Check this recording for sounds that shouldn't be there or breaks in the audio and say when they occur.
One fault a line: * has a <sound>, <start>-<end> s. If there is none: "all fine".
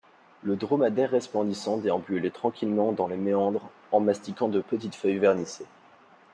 all fine